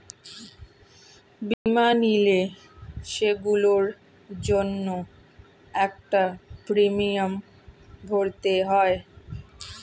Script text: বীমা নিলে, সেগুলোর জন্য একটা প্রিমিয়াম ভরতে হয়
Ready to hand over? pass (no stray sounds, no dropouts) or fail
fail